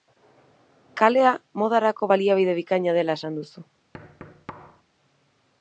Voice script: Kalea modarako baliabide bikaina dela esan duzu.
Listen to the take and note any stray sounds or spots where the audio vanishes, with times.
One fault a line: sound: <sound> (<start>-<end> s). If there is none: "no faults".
sound: thud (3.9-4.8 s)